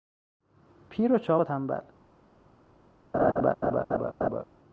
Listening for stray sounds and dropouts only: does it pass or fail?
fail